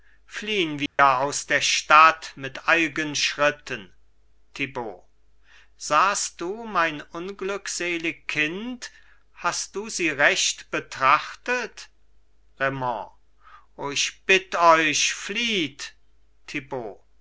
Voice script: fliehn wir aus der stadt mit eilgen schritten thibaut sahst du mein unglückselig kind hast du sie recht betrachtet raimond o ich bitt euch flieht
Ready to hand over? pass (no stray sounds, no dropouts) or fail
fail